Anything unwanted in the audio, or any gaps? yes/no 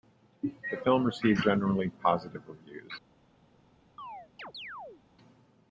yes